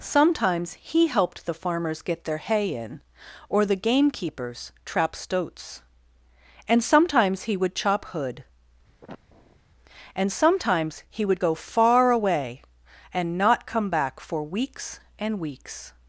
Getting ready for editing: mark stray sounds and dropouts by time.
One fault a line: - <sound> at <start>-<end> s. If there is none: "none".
- sniff at 9.0-9.6 s